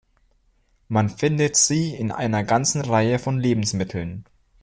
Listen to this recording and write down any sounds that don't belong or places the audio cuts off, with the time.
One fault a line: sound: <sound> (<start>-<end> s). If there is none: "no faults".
no faults